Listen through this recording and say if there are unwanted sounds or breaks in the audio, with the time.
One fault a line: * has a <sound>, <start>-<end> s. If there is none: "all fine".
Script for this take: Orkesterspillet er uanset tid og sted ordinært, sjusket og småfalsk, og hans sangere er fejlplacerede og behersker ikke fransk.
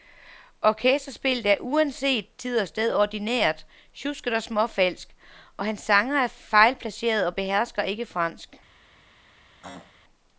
* has a throat clearing, 9.6-9.9 s